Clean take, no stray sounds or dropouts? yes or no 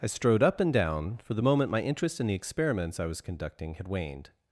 yes